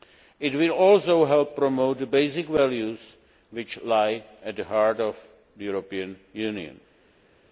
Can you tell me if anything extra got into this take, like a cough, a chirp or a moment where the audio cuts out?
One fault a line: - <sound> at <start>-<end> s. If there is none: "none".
none